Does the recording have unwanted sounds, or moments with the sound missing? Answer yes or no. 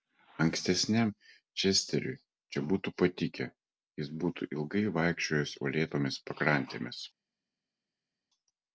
no